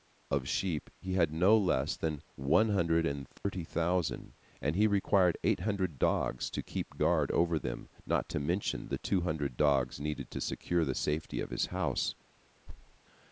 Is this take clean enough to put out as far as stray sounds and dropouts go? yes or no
no